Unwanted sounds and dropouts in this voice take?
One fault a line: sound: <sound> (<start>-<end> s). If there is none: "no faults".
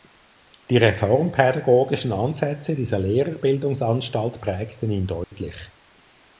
sound: dropout (5.2-5.3 s)